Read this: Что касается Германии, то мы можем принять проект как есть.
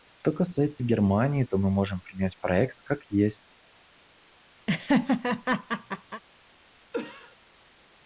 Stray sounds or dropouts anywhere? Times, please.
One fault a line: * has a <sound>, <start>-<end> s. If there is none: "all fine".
* has a laugh, 4.7-6.2 s
* has a cough, 6.9-7.4 s